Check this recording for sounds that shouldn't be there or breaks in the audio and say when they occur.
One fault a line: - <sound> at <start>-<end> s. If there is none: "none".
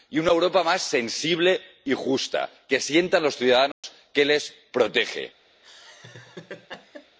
- dropout at 3.7-3.8 s
- laugh at 5.6-7.2 s